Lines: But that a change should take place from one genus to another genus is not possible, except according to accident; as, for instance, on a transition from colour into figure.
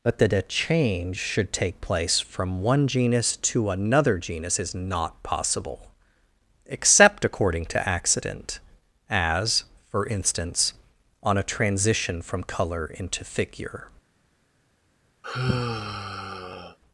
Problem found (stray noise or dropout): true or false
true